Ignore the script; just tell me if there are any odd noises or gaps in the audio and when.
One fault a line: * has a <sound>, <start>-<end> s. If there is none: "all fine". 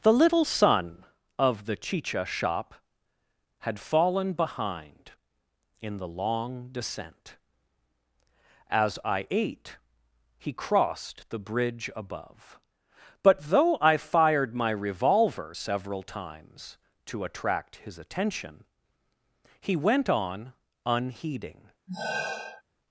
* has a sigh, 21.9-22.6 s